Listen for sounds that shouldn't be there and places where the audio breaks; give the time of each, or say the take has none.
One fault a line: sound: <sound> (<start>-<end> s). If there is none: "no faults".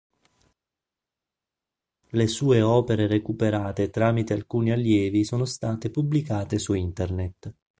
no faults